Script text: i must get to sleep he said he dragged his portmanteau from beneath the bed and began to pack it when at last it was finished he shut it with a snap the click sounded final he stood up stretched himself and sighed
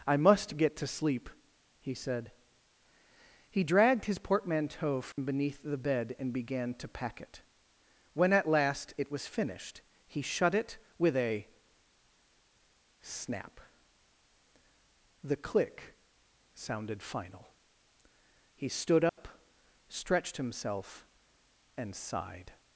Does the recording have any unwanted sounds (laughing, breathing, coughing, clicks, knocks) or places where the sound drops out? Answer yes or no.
yes